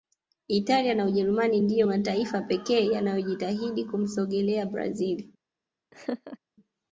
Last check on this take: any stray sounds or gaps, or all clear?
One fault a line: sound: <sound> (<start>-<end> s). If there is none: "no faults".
sound: laugh (5.9-6.4 s)